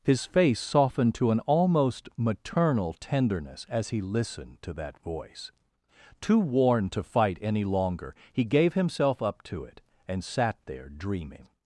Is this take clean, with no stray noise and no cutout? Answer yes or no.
yes